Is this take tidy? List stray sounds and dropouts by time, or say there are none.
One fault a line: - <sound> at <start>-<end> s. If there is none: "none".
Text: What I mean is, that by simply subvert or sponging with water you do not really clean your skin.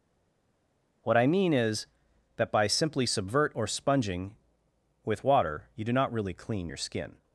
none